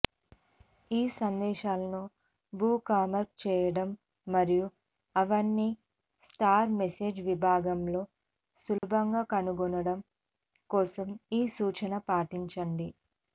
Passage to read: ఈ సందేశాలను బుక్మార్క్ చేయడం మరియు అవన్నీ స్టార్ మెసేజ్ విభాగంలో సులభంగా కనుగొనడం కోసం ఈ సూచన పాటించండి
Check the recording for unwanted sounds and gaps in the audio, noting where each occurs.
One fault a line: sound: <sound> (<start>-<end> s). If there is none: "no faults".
sound: dropout (8.8-8.8 s)